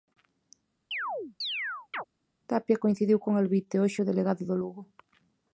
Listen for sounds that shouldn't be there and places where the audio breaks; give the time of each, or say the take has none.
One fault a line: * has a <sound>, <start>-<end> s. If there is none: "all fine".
* has a chirp, 0.9-2.0 s